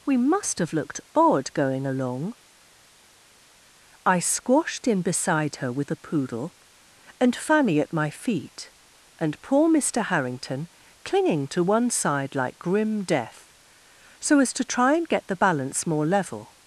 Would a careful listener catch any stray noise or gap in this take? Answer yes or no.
no